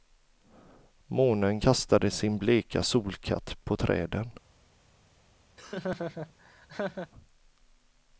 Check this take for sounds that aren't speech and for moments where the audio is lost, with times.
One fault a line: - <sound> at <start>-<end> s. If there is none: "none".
- laugh at 5.6-7.1 s